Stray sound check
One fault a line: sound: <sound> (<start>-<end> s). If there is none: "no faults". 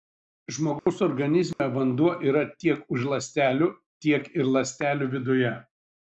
sound: dropout (0.8-0.9 s)
sound: dropout (1.5-1.6 s)